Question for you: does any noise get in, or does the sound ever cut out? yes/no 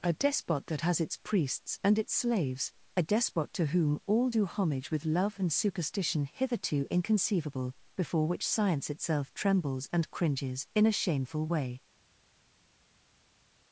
no